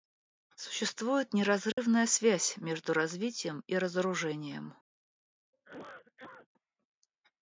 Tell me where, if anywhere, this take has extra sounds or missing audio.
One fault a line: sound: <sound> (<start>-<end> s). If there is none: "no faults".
sound: dropout (1.7-1.8 s)
sound: cough (5.5-6.5 s)